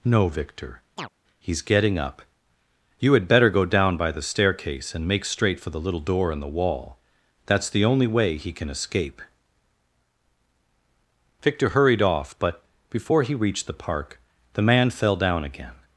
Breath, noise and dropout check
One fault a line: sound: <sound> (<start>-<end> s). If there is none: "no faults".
sound: chirp (1.0-1.1 s)